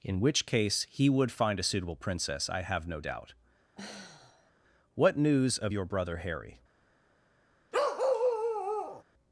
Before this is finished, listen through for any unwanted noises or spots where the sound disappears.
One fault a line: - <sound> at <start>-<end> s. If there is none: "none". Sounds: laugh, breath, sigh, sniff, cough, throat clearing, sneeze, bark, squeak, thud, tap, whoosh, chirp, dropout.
- sigh at 3.8-4.5 s
- bark at 7.7-9.0 s